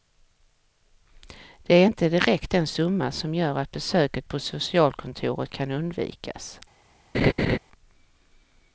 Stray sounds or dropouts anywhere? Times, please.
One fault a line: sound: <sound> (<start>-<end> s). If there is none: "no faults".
sound: laugh (7.1-7.6 s)